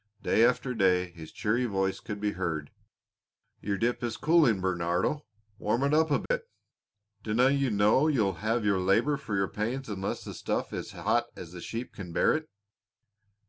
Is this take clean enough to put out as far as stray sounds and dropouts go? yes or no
no